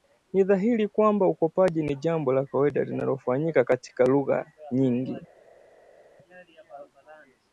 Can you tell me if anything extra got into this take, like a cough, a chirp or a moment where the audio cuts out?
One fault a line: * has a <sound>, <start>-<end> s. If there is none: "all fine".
all fine